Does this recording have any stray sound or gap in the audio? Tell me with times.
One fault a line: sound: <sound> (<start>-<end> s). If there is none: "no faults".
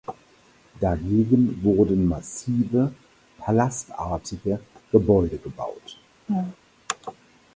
sound: laugh (6.3-6.6 s)